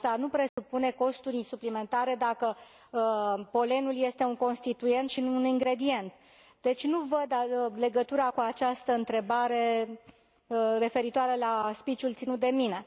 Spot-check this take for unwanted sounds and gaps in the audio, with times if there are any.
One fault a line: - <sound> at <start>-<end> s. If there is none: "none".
- dropout at 0.5-0.6 s